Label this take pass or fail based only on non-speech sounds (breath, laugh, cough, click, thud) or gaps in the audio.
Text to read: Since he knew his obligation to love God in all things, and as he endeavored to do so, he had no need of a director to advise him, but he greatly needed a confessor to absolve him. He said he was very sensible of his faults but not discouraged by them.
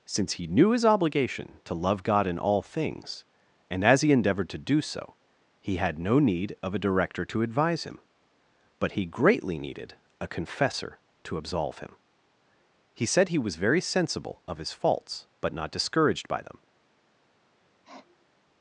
fail